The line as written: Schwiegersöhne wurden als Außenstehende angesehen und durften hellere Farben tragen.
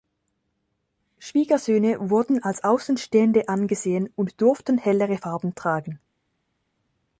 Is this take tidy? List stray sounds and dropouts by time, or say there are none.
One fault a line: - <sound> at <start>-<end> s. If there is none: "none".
none